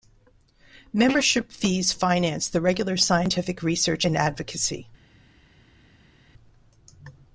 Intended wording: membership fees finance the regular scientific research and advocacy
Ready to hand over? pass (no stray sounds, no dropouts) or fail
pass